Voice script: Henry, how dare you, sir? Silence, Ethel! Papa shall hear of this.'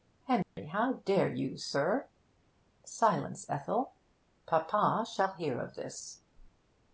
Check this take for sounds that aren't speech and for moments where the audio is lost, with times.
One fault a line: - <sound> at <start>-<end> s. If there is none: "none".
- dropout at 0.4-0.6 s